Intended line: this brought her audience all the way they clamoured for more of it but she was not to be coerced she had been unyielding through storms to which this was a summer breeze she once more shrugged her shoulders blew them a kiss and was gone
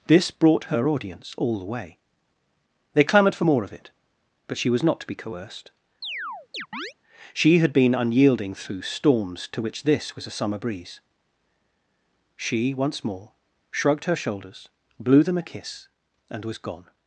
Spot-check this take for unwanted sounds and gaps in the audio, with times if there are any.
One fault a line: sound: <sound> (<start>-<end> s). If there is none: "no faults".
sound: chirp (6.0-6.9 s)